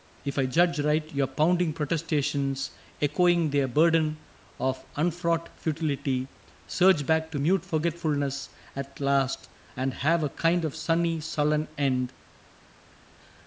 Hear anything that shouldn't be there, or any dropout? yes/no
no